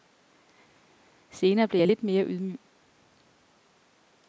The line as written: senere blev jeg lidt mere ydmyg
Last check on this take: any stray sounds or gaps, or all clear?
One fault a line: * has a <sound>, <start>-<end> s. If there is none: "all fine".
all fine